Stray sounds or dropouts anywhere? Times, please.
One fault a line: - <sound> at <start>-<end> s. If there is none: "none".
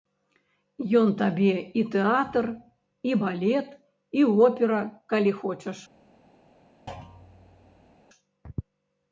- thud at 6.9-8.0 s